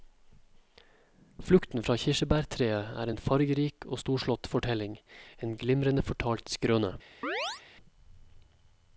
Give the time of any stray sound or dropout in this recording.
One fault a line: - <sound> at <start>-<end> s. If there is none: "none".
- chirp at 7.2-7.6 s